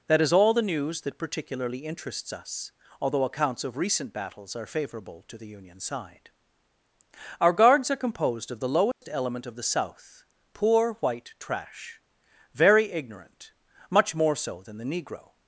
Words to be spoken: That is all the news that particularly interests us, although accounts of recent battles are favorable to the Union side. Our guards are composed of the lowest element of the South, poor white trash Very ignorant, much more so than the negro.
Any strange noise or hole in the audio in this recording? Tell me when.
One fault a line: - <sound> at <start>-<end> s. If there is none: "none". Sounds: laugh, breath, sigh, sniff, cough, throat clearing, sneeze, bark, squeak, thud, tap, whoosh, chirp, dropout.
- dropout at 8.9-9.0 s